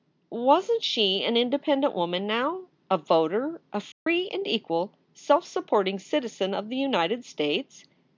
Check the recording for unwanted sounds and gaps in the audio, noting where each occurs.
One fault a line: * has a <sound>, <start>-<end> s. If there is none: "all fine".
* has a dropout, 3.9-4.1 s